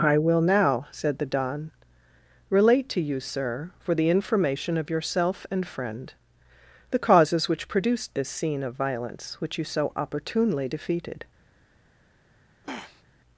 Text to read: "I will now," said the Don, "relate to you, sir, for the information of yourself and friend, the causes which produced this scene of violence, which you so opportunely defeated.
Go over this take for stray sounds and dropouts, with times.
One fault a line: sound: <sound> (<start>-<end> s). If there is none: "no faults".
sound: throat clearing (12.6-13.0 s)